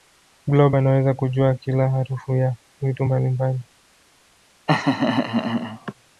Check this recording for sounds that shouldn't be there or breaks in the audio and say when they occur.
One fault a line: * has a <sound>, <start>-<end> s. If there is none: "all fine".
* has a laugh, 4.7-5.9 s